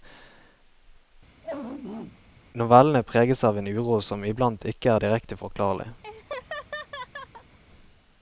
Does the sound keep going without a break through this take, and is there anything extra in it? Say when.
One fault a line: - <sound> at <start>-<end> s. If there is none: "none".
- throat clearing at 1.4-2.2 s
- laugh at 6.0-7.6 s